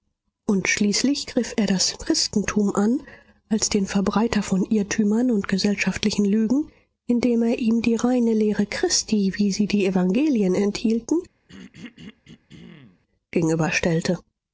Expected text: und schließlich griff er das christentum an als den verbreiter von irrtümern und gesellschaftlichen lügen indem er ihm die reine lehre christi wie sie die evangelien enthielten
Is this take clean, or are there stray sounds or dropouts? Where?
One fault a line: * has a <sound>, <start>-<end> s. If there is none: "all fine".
* has a throat clearing, 11.5-13.0 s